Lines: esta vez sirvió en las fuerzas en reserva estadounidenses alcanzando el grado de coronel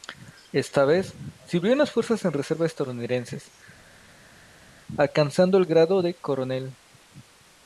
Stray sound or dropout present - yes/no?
no